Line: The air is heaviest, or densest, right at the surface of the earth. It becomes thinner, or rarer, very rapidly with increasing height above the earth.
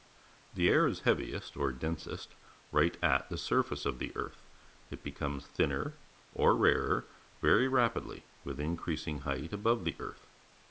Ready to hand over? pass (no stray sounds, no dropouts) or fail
pass